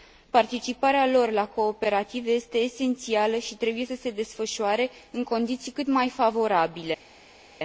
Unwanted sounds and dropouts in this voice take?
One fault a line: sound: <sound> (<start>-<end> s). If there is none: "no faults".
no faults